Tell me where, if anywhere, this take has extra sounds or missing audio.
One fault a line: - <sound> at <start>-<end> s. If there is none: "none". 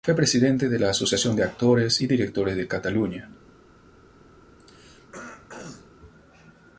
- throat clearing at 4.6-5.9 s